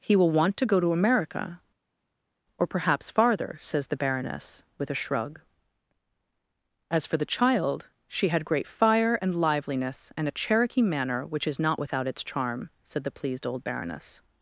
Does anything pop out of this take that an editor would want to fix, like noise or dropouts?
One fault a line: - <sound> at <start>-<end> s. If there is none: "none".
none